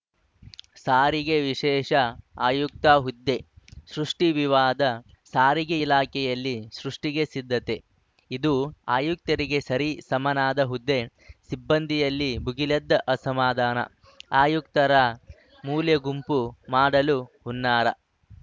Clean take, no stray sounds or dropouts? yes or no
yes